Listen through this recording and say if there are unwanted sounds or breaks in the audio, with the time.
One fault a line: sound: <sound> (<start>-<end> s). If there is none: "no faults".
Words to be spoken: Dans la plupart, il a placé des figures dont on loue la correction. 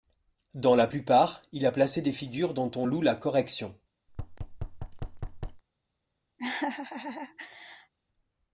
sound: thud (4.1-5.6 s)
sound: laugh (6.4-7.9 s)